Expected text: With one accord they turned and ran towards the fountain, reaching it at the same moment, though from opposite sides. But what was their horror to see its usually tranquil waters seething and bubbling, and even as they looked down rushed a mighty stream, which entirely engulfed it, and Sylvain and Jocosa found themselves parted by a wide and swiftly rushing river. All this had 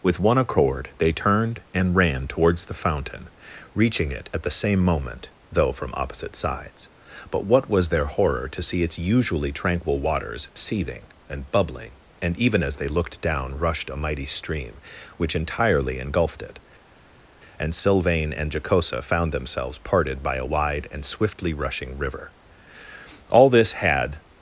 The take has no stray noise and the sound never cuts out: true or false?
true